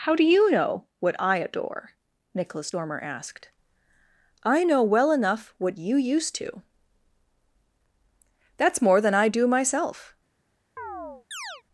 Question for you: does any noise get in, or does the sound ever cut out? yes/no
yes